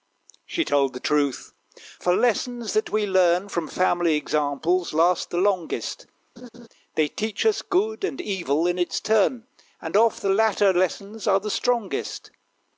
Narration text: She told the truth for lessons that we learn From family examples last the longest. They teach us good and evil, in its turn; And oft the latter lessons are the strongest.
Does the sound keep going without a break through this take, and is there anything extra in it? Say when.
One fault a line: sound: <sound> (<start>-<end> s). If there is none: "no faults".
sound: laugh (6.4-6.7 s)